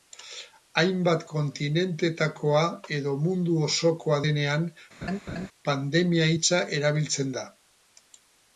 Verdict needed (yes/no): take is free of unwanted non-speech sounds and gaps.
no